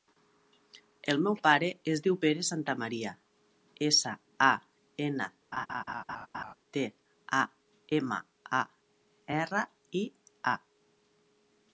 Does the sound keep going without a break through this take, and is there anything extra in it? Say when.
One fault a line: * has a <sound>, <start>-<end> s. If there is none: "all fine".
* has a laugh, 5.5-6.5 s